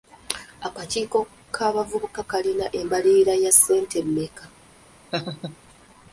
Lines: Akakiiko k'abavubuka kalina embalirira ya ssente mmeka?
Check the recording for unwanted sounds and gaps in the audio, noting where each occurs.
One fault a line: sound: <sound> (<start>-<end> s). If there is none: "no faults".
sound: laugh (5.1-5.6 s)